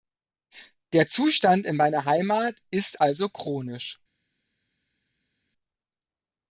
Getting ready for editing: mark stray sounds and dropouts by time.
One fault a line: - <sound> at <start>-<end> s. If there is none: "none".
none